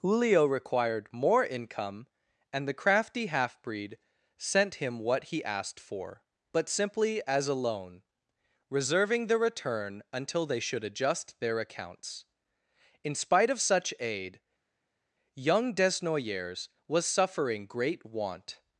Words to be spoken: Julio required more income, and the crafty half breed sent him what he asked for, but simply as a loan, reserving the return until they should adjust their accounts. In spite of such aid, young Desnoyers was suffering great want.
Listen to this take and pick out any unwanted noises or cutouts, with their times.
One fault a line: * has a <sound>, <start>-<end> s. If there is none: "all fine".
all fine